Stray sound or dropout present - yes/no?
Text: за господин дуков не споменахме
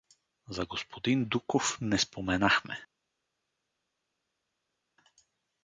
no